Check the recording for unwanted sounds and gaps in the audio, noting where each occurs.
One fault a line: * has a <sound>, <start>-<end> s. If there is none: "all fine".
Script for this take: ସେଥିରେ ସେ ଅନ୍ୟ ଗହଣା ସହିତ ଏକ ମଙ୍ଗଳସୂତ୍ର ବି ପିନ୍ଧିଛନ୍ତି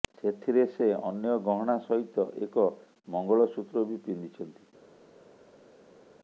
all fine